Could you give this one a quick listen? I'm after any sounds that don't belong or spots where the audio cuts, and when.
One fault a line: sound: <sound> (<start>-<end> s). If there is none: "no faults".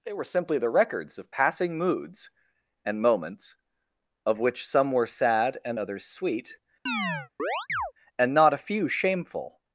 sound: chirp (6.9-7.9 s)